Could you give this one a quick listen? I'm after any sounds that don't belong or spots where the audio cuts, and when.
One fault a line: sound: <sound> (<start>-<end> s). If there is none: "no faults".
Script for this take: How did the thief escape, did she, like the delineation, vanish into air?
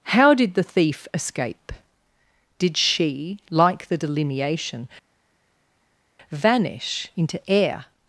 no faults